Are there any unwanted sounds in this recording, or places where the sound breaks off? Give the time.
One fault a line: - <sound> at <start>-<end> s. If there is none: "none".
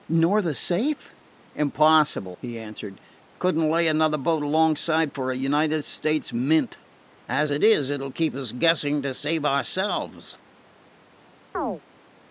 - chirp at 11.5-11.8 s